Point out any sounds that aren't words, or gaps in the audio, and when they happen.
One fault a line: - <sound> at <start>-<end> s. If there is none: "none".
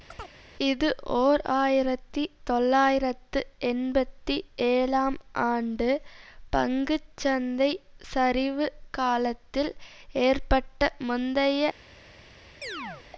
- chirp at 0.1-0.3 s
- chirp at 12.6-13.1 s